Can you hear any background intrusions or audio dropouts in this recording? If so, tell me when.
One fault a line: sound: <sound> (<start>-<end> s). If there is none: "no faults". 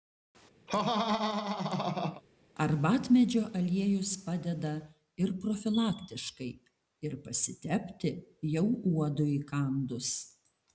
sound: laugh (0.7-2.2 s)